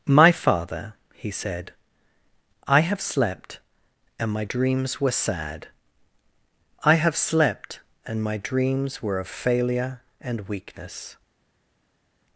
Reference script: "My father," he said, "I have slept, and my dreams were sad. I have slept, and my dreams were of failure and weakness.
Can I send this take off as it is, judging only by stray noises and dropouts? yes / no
yes